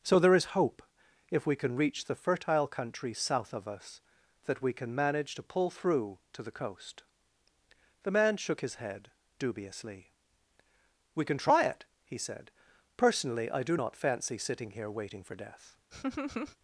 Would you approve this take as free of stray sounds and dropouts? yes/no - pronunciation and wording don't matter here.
no